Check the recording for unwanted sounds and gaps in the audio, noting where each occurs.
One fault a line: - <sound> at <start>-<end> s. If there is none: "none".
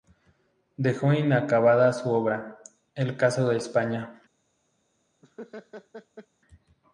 - laugh at 5.2-6.3 s